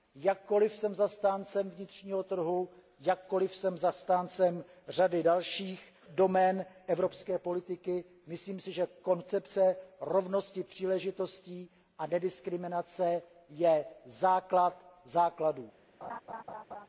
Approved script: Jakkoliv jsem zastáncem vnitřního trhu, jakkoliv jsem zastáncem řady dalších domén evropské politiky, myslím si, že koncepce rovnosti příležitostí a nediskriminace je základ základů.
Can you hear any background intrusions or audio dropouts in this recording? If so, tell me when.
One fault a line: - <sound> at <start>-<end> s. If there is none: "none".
- laugh at 16.0-16.9 s